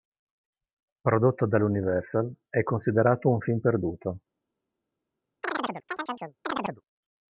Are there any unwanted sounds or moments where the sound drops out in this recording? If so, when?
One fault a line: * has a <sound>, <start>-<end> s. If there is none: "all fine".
* has a chirp, 5.4-6.8 s